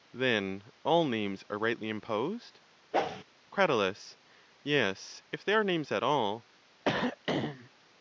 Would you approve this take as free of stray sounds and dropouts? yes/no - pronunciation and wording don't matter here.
no